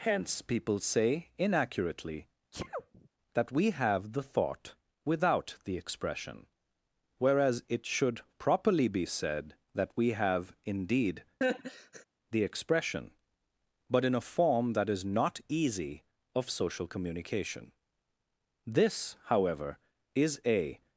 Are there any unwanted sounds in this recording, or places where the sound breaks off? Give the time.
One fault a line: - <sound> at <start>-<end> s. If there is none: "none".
- sneeze at 2.5-3.1 s
- laugh at 11.4-12.0 s